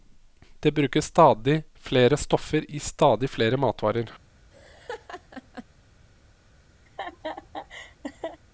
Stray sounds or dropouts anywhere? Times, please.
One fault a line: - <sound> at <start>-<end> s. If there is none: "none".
- laugh at 4.5-5.6 s
- laugh at 6.9-8.4 s